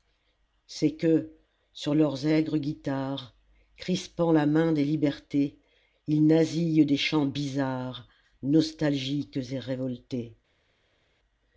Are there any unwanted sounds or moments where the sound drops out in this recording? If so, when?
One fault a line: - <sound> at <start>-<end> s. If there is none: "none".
none